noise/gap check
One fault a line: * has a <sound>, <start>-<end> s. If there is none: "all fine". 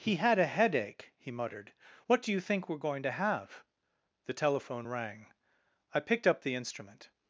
all fine